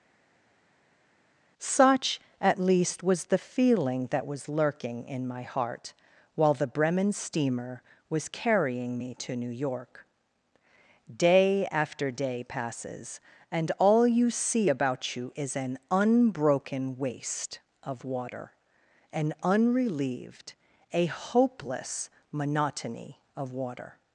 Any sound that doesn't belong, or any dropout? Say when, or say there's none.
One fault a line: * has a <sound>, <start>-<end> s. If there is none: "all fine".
all fine